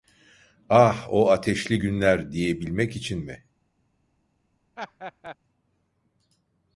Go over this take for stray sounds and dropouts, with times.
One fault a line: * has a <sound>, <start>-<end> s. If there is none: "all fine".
* has a laugh, 4.8-5.4 s